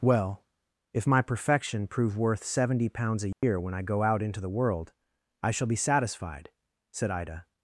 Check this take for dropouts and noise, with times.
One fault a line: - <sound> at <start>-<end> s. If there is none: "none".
- dropout at 3.3-3.4 s